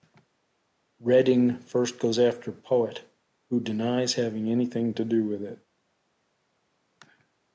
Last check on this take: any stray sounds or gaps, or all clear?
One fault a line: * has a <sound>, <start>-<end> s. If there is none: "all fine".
all fine